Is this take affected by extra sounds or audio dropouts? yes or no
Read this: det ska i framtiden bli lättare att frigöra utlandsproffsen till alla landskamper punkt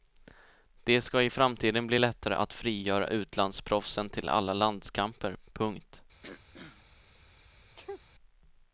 yes